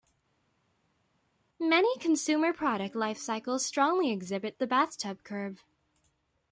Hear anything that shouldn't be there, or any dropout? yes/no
no